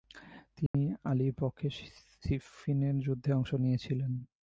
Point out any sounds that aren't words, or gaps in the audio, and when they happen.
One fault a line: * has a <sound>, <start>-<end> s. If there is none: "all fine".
* has a dropout, 0.7-0.7 s